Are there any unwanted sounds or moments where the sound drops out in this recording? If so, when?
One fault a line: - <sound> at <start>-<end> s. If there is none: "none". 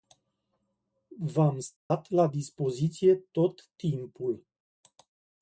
- dropout at 1.8-1.9 s